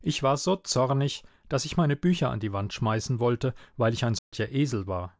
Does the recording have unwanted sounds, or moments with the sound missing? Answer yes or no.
yes